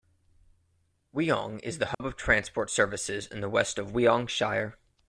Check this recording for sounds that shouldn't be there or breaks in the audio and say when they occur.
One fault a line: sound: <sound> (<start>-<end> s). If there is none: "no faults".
sound: dropout (1.9-2.0 s)